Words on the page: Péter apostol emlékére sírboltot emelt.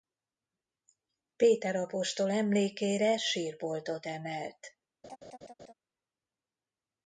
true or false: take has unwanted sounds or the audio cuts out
true